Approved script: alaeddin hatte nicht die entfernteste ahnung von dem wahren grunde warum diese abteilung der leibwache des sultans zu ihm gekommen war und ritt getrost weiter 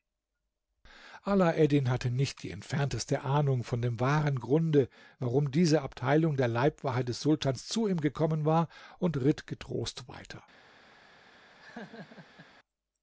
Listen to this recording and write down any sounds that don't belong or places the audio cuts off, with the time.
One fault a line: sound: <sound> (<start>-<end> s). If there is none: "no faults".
sound: laugh (11.6-12.5 s)